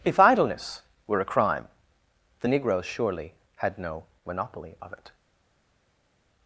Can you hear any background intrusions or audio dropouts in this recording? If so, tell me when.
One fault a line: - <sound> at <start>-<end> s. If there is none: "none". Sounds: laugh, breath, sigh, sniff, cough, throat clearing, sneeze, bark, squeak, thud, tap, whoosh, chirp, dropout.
none